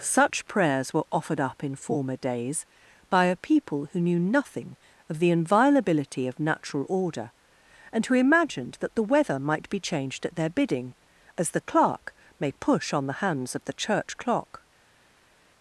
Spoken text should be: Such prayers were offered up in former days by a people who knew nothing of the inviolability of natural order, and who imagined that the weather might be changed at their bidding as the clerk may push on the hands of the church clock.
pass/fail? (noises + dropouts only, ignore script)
pass